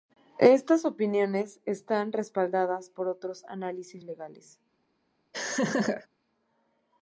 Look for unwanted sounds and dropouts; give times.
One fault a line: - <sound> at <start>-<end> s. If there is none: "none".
- laugh at 5.3-6.1 s